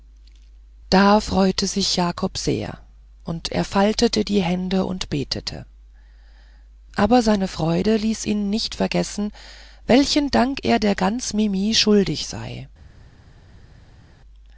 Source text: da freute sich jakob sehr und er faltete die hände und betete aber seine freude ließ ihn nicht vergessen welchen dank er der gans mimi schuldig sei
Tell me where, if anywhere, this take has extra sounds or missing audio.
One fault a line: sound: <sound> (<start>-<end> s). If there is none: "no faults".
no faults